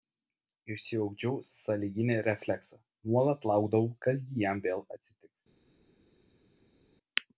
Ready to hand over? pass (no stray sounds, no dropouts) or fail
pass